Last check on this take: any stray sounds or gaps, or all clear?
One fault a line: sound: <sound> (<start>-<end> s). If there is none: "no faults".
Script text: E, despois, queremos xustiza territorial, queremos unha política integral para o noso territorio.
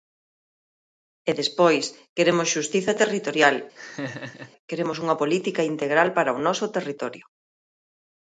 sound: laugh (3.7-4.5 s)